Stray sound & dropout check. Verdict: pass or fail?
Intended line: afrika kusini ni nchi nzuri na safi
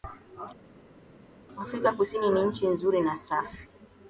pass